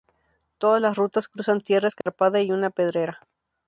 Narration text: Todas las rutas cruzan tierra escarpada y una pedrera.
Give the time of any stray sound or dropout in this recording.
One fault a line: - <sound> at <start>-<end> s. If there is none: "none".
- dropout at 2.0-2.1 s